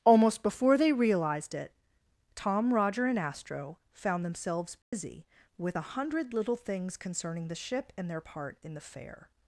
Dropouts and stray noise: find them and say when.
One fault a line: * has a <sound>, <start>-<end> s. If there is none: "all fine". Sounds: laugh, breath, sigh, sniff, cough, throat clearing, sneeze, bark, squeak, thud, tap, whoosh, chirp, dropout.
* has a dropout, 4.8-4.9 s